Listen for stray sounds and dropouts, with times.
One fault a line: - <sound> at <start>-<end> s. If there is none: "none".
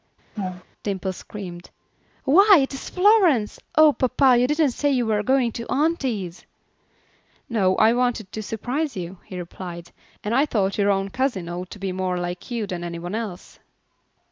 - laugh at 0.4-0.6 s